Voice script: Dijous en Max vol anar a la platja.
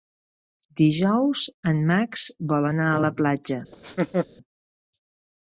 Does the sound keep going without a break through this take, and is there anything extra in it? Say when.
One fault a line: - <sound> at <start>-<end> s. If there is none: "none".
- laugh at 3.7-4.3 s